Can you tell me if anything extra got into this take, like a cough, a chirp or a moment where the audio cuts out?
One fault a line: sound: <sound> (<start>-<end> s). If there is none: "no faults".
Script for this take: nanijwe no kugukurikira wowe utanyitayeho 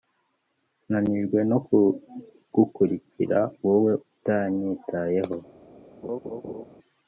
sound: laugh (6.0-6.7 s)